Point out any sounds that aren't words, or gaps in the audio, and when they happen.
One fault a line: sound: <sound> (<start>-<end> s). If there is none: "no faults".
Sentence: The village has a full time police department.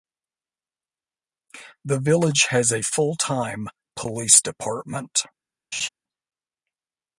sound: laugh (5.7-5.9 s)